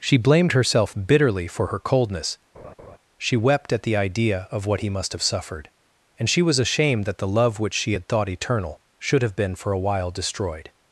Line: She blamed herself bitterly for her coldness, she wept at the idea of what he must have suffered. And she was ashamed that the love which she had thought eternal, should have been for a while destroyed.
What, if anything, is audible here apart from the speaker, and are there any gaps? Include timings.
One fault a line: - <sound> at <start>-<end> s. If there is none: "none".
- laugh at 2.5-3.0 s